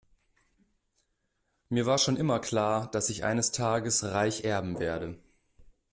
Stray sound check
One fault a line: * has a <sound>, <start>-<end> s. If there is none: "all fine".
all fine